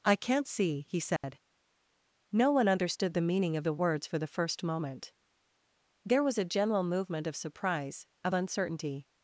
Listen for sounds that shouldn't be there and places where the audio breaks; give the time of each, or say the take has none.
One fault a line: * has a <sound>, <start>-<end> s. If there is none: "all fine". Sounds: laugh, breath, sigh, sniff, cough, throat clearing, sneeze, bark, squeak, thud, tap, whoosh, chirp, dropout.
* has a dropout, 1.2-1.2 s